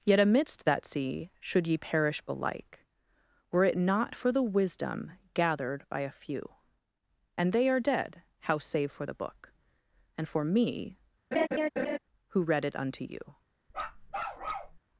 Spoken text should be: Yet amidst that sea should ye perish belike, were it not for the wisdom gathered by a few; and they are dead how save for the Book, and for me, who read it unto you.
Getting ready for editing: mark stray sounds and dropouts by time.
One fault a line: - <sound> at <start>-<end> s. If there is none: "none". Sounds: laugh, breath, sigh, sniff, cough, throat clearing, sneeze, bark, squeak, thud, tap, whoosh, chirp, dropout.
- laugh at 11.3-12.0 s
- bark at 13.7-14.8 s